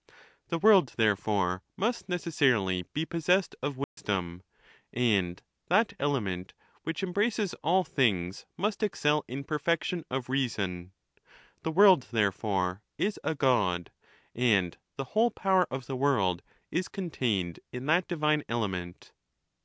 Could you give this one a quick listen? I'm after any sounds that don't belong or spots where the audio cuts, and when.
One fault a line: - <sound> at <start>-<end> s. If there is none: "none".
- dropout at 3.8-4.0 s